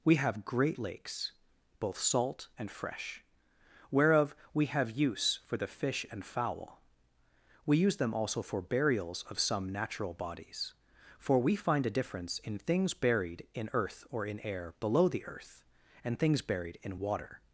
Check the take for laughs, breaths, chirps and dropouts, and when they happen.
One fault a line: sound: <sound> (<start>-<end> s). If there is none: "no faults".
no faults